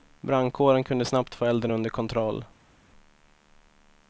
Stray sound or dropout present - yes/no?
no